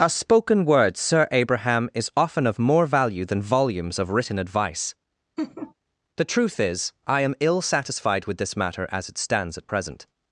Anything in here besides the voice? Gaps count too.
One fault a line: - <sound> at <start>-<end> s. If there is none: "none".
- laugh at 5.4-5.7 s